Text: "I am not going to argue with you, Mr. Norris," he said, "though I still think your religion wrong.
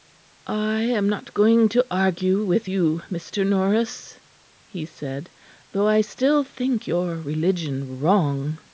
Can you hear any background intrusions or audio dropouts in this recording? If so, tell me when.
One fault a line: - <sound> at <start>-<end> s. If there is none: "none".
none